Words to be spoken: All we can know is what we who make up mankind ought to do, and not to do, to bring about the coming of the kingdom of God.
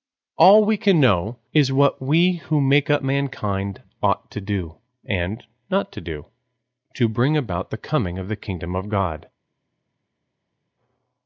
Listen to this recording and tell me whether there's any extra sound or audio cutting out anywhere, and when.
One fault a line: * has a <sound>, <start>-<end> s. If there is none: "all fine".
all fine